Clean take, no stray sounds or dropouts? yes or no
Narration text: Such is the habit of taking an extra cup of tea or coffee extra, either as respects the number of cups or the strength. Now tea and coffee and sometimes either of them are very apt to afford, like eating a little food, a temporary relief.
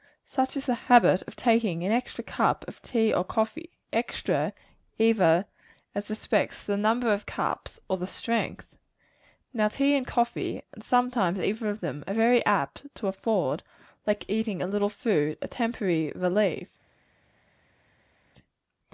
yes